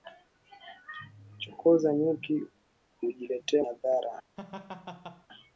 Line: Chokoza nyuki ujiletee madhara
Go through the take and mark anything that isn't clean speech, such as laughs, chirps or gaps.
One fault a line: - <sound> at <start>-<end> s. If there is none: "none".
- laugh at 4.4-5.3 s